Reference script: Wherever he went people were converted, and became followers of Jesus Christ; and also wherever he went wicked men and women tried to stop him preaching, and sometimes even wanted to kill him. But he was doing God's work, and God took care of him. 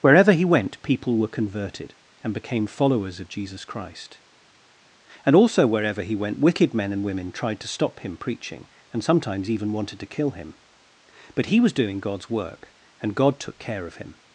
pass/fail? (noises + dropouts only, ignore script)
pass